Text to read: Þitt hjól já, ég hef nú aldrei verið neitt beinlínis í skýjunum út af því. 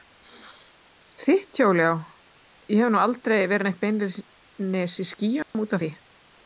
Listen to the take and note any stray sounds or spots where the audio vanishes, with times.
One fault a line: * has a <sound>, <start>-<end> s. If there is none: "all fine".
* has a dropout, 5.4-5.5 s